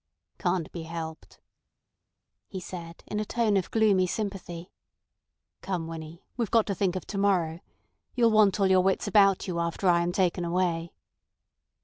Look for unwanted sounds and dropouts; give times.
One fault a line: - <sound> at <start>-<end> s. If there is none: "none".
none